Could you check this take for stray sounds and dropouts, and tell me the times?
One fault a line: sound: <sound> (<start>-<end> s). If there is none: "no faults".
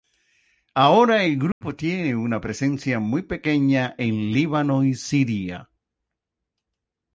sound: dropout (1.5-1.6 s)